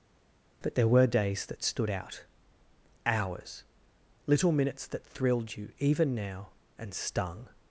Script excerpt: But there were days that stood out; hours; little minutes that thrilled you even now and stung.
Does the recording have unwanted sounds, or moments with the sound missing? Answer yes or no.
no